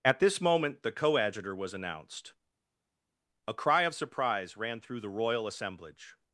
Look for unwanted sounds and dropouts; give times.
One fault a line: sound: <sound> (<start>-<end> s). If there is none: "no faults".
no faults